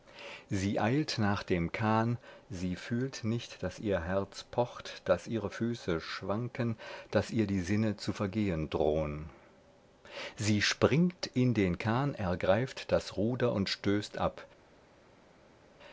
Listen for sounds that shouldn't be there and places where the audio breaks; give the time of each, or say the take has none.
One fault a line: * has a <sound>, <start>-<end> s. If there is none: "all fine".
all fine